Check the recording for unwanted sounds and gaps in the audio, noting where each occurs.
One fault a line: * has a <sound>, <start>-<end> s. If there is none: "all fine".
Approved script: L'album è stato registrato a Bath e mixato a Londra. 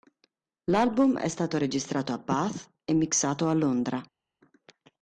all fine